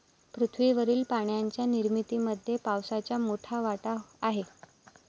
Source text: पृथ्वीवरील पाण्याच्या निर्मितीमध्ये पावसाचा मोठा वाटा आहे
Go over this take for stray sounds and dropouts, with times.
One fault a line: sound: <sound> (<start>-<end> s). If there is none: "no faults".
no faults